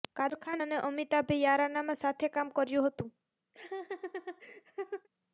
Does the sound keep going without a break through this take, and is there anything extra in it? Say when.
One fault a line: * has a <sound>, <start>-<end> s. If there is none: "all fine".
* has a laugh, 3.5-5.1 s